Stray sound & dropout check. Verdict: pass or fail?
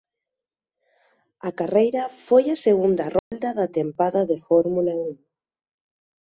fail